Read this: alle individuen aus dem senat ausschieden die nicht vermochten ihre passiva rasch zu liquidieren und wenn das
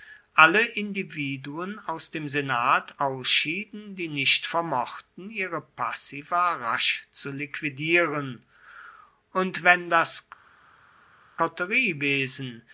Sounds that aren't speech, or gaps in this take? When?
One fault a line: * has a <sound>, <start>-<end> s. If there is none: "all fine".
all fine